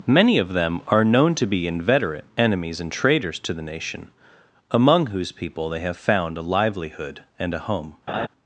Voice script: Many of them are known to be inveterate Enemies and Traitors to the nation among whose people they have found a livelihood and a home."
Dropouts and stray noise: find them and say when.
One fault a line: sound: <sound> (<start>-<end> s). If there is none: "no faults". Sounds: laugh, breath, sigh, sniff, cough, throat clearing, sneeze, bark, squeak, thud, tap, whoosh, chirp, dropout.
sound: laugh (8.1-8.3 s)